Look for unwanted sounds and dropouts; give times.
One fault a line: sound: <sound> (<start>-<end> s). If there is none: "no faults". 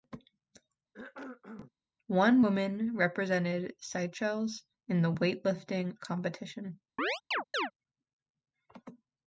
sound: cough (0.9-1.7 s)
sound: chirp (7.0-7.7 s)